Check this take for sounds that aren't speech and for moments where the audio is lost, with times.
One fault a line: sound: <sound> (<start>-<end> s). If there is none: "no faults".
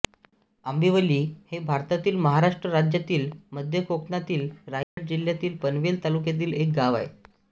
sound: dropout (4.8-5.0 s)